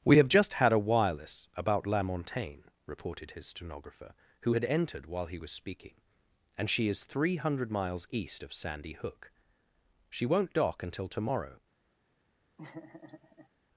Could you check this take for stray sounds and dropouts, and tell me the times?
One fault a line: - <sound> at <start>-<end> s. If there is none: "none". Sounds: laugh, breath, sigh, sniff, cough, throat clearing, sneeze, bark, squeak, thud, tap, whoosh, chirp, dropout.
- laugh at 12.6-13.5 s